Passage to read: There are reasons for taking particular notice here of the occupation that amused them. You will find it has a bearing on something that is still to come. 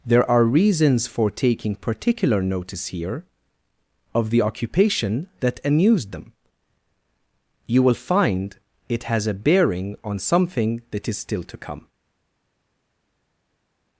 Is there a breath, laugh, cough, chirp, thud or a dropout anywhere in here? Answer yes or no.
no